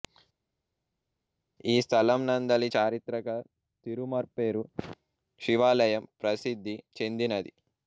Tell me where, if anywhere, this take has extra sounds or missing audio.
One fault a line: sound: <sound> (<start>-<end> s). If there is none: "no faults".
no faults